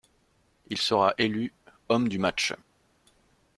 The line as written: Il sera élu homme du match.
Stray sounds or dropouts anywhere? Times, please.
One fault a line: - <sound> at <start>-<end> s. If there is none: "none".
none